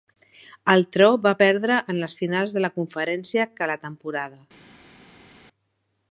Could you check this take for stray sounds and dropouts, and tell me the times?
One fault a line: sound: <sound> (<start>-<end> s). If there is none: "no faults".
no faults